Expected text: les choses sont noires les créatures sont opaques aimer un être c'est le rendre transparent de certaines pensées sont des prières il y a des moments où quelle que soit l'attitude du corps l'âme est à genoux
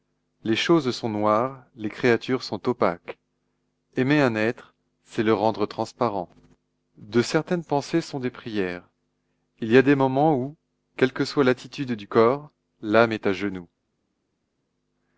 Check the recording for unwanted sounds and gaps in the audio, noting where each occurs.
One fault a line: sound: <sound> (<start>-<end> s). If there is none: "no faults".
no faults